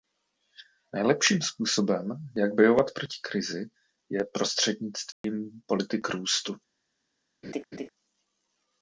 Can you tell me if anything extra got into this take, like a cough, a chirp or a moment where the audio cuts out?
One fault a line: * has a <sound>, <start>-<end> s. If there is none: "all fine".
* has a dropout, 5.1-5.2 s
* has a laugh, 7.4-7.9 s